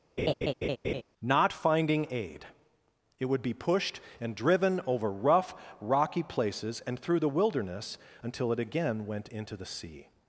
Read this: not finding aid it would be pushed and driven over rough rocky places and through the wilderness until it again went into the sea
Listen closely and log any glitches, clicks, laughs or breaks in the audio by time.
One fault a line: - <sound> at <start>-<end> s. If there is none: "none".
- laugh at 0.2-1.0 s